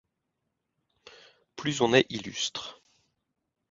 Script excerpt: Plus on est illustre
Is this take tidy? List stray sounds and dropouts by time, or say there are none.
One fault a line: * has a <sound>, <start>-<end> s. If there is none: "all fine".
all fine